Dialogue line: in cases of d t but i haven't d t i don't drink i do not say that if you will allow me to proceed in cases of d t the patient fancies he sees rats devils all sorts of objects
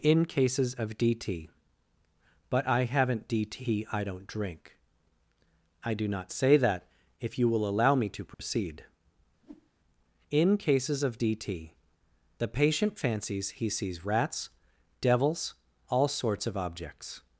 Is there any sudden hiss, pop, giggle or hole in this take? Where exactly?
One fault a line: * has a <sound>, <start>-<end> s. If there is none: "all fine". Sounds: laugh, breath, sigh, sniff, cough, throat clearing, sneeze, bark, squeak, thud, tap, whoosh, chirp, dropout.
* has a dropout, 8.3-8.4 s
* has a whoosh, 9.4-9.7 s